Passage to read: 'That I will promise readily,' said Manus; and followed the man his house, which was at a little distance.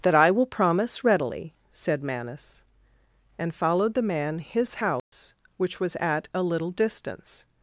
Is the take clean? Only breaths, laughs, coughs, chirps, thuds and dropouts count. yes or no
no